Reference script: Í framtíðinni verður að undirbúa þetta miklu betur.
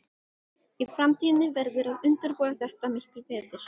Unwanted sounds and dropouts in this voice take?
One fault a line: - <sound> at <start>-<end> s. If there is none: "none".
none